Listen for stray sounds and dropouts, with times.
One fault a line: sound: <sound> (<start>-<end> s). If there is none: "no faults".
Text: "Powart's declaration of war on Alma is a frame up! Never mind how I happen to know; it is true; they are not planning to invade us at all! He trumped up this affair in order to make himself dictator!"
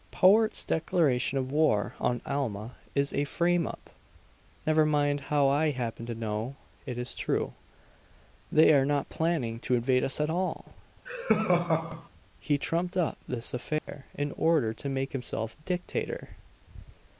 sound: laugh (11.1-12.1 s)
sound: dropout (13.8-13.9 s)